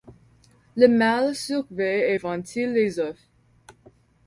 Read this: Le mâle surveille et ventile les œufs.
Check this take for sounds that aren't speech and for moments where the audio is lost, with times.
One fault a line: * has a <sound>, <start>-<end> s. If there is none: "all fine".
all fine